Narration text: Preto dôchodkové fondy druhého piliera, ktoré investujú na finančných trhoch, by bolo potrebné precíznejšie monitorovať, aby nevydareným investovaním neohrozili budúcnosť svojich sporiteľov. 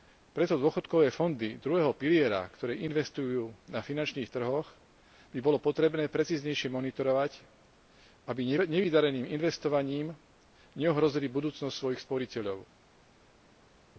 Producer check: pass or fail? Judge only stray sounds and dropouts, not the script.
pass